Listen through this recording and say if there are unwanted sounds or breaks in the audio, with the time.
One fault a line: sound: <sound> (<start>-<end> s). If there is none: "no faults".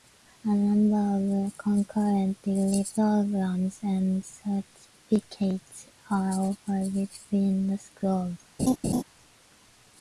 sound: laugh (8.6-9.0 s)